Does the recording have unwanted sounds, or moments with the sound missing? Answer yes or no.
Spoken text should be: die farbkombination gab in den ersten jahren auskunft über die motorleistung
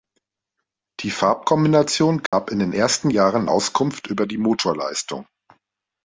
yes